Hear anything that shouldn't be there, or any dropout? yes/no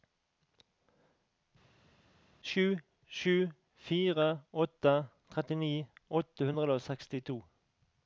no